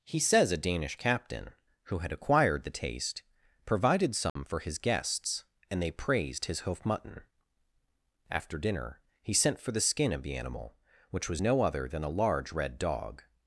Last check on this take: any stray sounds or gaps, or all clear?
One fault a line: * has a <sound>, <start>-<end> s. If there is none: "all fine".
* has a dropout, 4.3-4.4 s